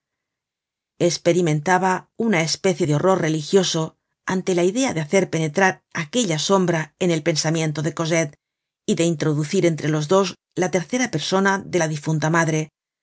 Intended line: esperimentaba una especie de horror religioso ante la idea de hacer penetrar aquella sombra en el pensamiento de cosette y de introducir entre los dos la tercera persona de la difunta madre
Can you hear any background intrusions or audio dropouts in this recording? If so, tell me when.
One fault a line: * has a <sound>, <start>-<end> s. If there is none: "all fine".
all fine